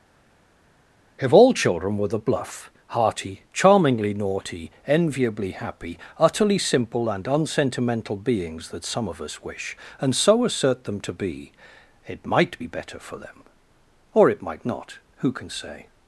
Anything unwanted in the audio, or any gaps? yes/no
no